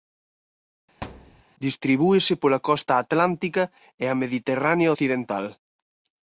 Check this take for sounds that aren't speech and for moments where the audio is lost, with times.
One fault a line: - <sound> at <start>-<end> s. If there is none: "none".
- thud at 1.0-1.4 s